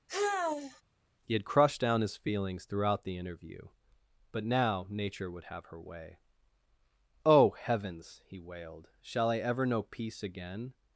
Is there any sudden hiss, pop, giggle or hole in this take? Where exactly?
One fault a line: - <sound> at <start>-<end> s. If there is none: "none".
- sigh at 0.1-0.8 s